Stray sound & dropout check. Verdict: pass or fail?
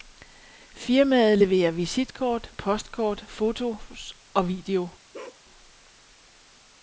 fail